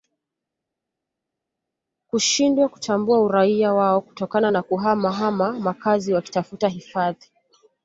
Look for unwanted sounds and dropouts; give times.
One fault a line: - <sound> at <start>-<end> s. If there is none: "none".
none